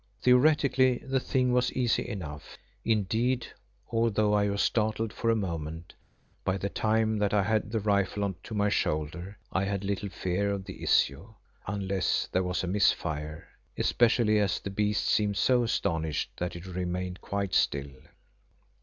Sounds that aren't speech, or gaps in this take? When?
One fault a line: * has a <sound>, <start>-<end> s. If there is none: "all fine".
all fine